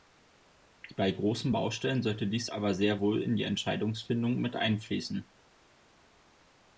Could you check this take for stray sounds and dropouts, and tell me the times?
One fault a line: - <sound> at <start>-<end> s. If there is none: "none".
none